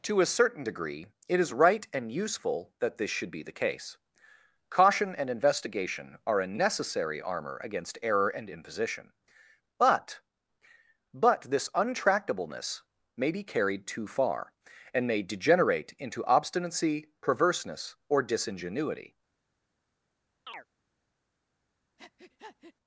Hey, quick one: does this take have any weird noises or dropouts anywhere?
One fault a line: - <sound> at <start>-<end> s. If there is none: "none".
- chirp at 20.5-20.7 s
- breath at 22.0-22.7 s